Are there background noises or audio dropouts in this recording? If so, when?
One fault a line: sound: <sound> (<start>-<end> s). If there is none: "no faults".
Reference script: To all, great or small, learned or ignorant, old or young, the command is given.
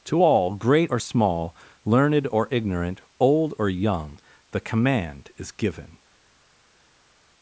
no faults